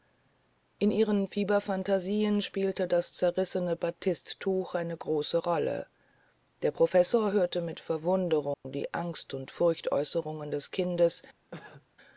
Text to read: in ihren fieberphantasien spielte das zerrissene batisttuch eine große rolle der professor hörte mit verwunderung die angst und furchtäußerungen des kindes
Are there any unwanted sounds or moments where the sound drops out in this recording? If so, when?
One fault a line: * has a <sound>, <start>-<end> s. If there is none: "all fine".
* has a dropout, 8.5-8.6 s
* has a cough, 11.5-11.9 s